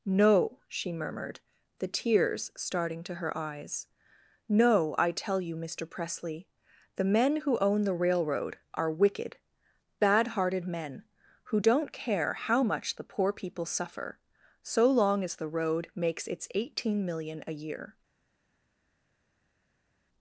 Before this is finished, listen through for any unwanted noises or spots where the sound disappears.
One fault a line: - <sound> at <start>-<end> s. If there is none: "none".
none